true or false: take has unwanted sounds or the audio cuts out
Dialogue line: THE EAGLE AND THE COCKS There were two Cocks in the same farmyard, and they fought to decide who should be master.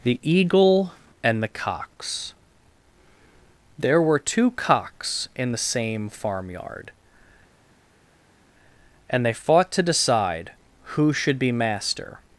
false